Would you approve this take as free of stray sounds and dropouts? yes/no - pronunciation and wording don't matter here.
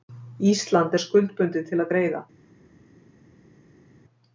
yes